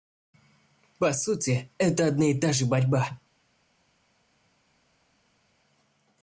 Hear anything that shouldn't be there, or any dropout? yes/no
no